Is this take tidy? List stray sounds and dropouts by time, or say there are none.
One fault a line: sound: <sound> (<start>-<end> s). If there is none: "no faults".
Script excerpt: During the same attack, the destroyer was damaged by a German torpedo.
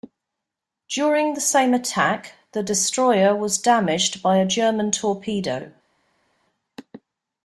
no faults